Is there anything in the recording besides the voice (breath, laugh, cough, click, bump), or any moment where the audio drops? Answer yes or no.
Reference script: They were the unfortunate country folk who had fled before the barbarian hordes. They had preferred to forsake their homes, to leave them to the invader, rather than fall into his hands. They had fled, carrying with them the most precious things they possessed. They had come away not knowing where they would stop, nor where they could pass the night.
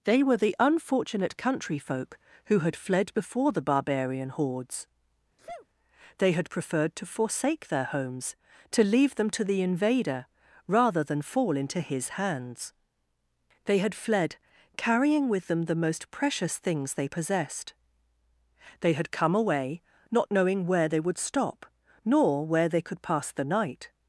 yes